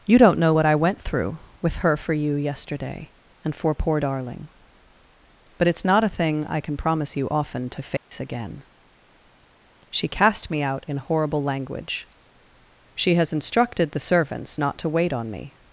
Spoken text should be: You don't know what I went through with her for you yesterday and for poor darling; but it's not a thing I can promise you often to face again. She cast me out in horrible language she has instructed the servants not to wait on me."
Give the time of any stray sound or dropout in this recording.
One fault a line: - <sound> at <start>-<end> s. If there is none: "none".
- dropout at 8.0-8.1 s